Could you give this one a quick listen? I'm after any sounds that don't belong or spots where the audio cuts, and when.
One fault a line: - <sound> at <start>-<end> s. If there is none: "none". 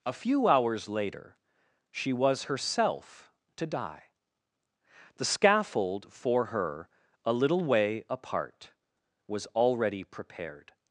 none